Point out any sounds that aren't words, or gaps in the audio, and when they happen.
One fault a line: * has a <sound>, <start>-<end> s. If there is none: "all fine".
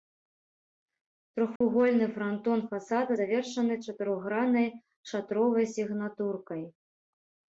* has a dropout, 1.6-1.6 s